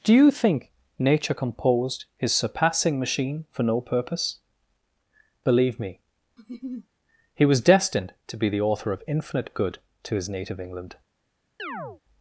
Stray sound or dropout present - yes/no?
yes